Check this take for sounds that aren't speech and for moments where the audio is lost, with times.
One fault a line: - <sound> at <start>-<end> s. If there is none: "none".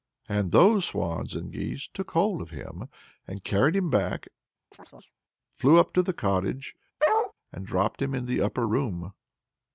- chirp at 4.7-5.1 s
- bark at 7.0-7.3 s